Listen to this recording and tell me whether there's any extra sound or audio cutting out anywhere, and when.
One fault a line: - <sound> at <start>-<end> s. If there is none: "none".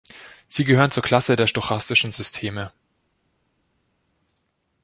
none